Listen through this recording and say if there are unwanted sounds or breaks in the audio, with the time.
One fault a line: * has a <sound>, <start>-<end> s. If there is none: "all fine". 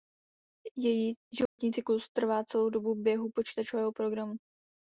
* has a dropout, 1.5-1.6 s